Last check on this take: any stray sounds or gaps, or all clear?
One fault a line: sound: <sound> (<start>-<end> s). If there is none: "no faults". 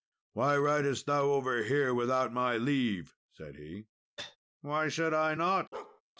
sound: cough (4.2-4.4 s)
sound: bark (5.7-6.0 s)